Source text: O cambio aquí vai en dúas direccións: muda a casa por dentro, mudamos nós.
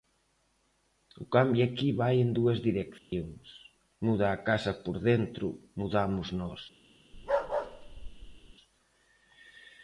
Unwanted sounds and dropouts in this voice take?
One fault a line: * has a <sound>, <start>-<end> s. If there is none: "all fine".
* has a dropout, 3.0-3.1 s
* has a bark, 7.1-8.5 s